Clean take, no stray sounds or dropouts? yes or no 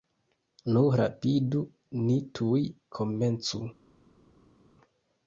yes